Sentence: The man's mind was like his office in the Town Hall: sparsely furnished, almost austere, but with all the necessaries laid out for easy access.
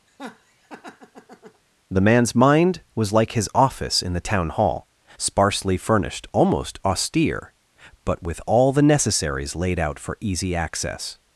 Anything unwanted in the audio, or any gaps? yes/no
yes